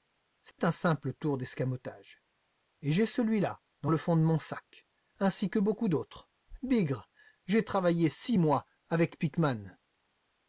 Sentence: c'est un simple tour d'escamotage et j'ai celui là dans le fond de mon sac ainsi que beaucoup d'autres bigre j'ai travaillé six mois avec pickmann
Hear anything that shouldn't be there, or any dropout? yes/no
yes